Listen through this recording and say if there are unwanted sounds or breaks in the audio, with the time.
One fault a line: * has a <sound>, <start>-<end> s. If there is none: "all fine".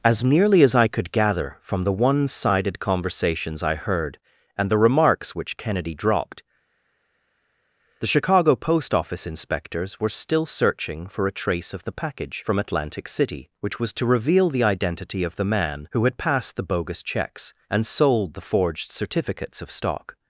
all fine